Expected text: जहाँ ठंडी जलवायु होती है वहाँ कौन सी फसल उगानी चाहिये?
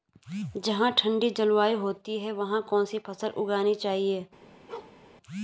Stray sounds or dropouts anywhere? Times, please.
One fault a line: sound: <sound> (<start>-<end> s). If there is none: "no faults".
sound: bark (4.7-5.0 s)